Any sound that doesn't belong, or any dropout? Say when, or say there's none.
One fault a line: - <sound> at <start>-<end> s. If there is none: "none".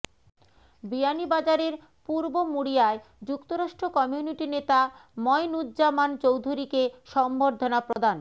- dropout at 7.9-8.0 s